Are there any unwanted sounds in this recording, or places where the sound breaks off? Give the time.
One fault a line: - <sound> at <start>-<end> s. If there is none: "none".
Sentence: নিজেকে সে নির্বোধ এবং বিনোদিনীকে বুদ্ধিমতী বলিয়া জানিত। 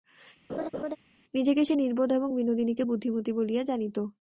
- laugh at 0.5-1.0 s